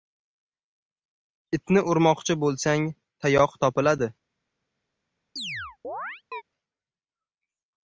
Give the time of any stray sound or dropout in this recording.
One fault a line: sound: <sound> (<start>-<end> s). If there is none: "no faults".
sound: chirp (5.4-6.4 s)